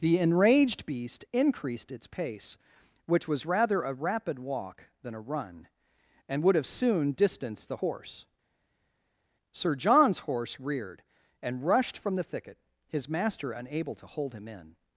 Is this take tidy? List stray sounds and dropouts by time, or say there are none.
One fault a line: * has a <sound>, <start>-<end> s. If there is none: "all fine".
all fine